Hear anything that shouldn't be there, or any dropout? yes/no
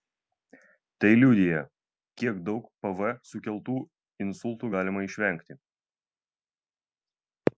no